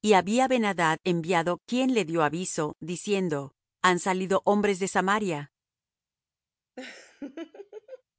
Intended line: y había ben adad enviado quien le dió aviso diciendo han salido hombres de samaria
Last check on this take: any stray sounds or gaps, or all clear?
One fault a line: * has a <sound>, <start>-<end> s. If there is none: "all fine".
* has a laugh, 6.8-8.0 s